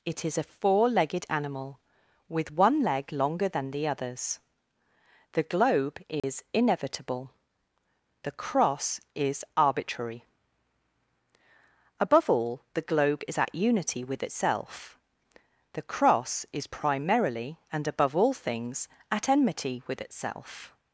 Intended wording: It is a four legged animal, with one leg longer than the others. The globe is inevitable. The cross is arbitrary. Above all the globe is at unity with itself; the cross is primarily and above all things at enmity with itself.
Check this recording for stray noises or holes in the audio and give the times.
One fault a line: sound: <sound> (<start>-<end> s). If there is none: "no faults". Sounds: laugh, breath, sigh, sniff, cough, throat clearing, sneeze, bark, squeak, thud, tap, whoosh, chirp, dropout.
sound: dropout (6.2-6.2 s)